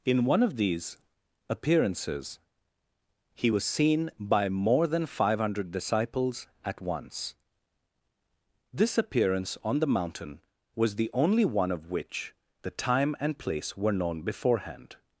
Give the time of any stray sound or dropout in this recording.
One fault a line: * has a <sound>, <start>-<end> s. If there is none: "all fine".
all fine